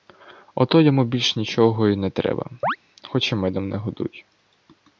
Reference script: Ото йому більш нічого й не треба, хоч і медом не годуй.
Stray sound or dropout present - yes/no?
yes